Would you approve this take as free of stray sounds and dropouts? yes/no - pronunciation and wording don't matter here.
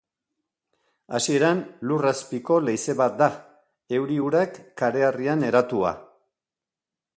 yes